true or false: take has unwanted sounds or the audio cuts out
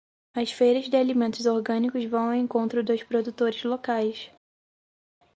false